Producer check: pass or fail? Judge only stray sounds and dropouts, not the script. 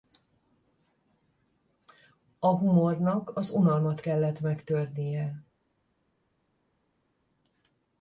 pass